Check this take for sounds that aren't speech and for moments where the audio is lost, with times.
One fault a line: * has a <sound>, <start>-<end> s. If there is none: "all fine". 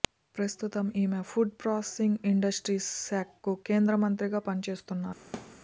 * has a thud, 5.3-5.6 s